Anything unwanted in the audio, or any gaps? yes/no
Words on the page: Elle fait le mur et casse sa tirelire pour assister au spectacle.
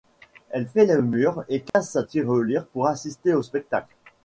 yes